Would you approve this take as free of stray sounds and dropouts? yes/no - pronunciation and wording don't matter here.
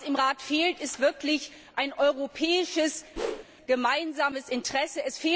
no